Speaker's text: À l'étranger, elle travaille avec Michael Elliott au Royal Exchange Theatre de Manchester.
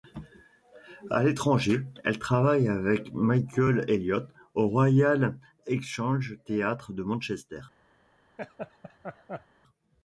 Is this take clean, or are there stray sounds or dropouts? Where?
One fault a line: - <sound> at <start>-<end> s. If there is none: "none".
- laugh at 8.4-9.5 s